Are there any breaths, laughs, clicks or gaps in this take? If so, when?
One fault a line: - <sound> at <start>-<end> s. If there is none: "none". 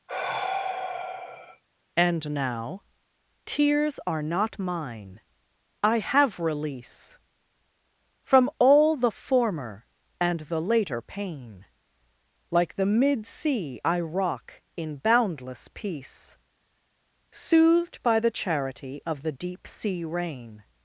- sigh at 0.1-1.6 s